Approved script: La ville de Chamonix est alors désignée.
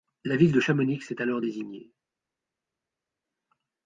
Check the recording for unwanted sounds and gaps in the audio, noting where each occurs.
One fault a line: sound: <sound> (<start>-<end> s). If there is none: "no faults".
no faults